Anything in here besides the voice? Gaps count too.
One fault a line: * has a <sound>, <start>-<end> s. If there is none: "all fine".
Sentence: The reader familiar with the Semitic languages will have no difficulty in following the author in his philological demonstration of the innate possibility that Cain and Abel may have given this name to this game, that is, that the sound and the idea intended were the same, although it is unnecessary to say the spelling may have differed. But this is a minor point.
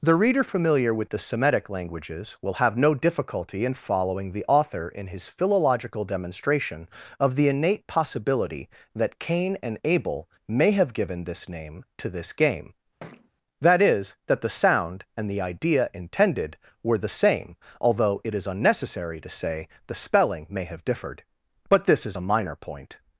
* has a thud, 13.0-13.3 s